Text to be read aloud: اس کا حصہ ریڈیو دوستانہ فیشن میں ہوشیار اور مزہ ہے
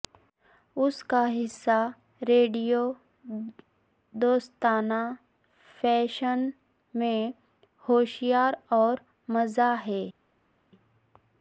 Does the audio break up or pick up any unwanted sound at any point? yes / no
no